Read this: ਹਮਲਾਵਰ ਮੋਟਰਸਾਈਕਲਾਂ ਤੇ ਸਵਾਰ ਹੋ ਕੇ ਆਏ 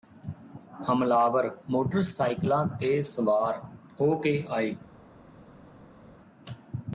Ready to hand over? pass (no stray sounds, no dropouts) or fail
pass